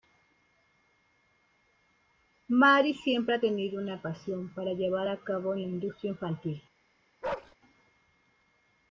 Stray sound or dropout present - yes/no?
yes